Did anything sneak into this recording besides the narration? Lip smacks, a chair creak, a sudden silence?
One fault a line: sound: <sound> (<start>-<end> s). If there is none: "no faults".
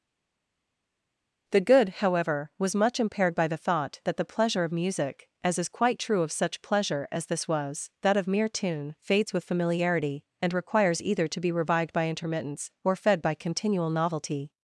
no faults